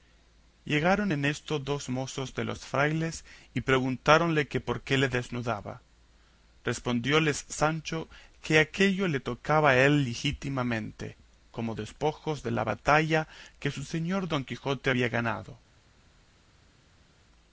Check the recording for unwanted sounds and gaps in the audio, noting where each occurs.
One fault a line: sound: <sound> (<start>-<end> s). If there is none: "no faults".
no faults